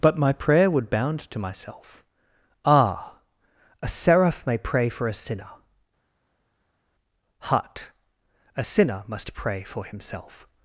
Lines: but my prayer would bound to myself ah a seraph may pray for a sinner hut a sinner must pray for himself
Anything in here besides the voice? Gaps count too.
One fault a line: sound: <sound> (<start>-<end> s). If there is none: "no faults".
no faults